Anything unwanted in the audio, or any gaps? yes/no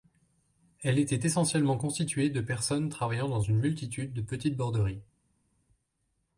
no